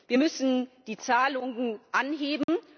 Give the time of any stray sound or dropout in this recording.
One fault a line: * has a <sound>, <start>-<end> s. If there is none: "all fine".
* has a dropout, 2.4-2.5 s